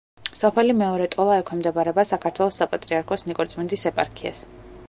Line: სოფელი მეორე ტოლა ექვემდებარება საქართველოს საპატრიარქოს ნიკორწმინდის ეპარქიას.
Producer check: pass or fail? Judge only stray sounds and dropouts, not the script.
pass